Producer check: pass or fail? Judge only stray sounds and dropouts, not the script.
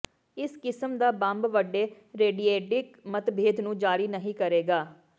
pass